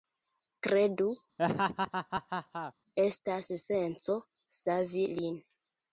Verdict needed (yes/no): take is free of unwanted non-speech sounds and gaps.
no